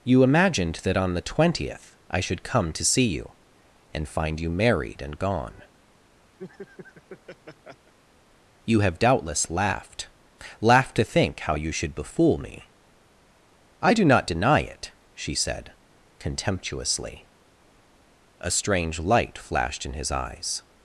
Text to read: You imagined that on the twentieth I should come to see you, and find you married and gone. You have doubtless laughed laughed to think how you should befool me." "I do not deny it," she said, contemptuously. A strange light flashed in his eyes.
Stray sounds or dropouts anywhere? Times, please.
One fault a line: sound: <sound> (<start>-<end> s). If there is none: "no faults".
sound: laugh (6.4-7.9 s)